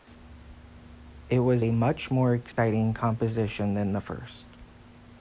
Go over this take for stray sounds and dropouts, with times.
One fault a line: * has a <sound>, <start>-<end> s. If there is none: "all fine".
* has a dropout, 2.5-2.6 s